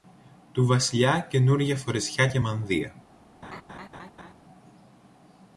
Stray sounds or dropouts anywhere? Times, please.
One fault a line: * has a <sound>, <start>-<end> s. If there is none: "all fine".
* has a laugh, 3.4-4.3 s